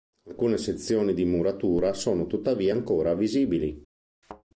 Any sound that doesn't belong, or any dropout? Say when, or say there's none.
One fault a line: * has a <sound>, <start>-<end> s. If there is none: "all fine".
* has a thud, 4.2-4.4 s